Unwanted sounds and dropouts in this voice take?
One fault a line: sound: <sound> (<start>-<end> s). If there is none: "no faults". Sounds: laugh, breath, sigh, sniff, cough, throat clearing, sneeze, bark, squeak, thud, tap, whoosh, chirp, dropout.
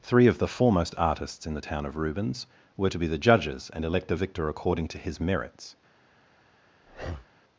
sound: breath (6.8-7.3 s)